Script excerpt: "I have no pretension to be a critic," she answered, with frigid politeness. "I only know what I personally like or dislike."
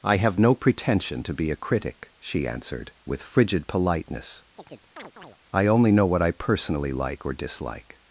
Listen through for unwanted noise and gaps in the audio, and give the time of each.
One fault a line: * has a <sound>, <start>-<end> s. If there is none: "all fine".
* has a chirp, 4.6-5.4 s